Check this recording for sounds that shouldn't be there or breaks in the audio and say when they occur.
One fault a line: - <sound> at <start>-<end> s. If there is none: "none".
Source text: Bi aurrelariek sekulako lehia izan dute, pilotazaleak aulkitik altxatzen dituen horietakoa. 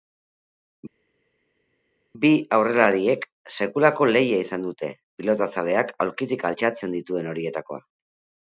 none